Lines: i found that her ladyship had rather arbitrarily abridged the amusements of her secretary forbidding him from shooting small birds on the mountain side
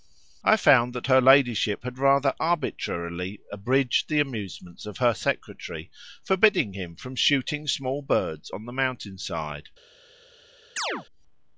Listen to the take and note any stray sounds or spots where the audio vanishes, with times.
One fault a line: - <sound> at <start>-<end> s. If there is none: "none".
- chirp at 10.8-11.1 s